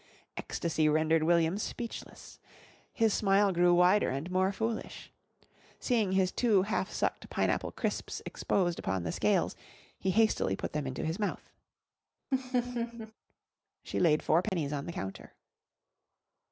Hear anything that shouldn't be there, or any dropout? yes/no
yes